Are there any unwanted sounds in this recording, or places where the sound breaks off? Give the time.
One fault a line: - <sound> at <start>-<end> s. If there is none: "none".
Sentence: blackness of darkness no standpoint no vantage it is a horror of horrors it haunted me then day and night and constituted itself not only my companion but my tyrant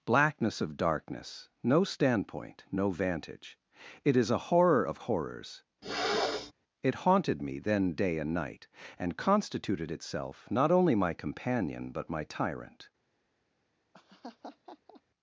- throat clearing at 5.8-6.5 s
- laugh at 13.9-15.0 s